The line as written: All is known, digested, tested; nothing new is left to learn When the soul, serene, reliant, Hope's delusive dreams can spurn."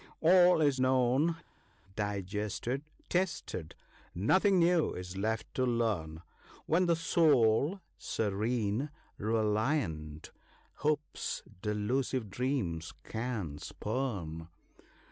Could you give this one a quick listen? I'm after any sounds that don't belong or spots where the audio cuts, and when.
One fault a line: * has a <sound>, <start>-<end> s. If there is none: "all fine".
all fine